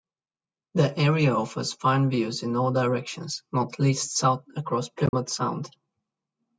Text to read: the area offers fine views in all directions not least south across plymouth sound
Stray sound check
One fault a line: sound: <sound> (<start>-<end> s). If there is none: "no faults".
sound: dropout (5.1-5.1 s)